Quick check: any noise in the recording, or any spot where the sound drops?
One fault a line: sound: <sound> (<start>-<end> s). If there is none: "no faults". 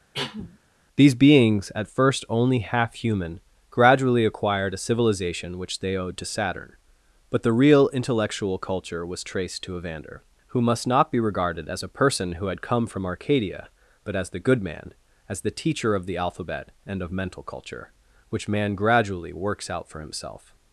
sound: cough (0.1-0.6 s)